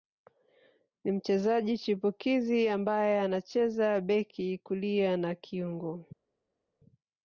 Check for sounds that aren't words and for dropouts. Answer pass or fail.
pass